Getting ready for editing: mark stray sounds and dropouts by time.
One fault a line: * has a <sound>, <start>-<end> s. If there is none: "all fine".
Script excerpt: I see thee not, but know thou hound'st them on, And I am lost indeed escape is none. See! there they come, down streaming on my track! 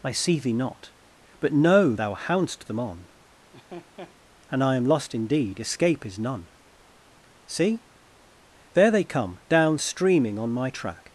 * has a laugh, 3.5-4.2 s